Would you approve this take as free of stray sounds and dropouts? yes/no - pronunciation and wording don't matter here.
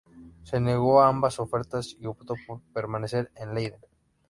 yes